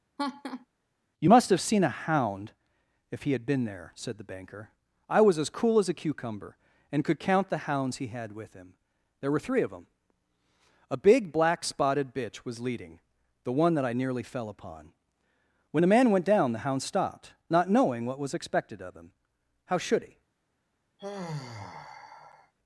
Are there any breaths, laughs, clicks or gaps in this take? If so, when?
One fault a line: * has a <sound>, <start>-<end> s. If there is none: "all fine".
* has a laugh, 0.2-0.7 s
* has a sigh, 21.0-22.5 s